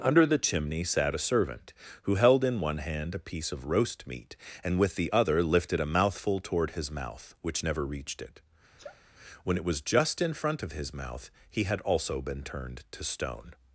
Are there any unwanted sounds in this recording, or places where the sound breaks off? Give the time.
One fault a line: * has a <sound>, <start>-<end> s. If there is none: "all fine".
* has a sneeze, 8.8-9.0 s